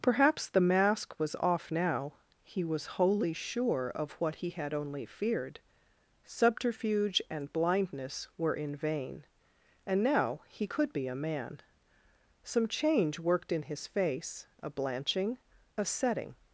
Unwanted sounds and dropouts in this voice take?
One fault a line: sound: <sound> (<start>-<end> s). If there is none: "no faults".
no faults